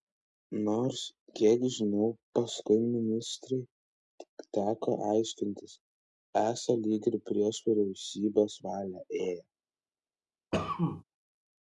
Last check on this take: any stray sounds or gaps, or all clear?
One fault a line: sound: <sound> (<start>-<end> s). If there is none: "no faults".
sound: cough (10.5-11.0 s)